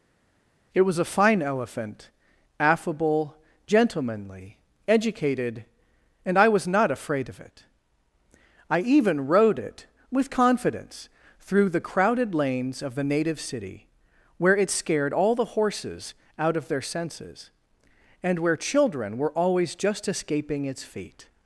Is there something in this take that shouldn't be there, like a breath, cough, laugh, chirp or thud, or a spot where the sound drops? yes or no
no